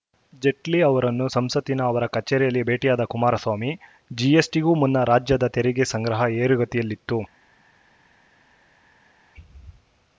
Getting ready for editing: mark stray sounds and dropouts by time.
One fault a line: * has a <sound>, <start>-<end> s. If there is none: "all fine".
all fine